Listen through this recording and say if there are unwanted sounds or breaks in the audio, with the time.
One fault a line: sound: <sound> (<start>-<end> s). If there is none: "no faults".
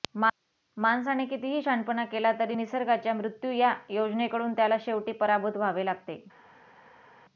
no faults